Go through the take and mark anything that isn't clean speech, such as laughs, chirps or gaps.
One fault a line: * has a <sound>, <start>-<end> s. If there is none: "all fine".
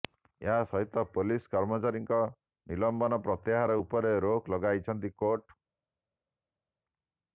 all fine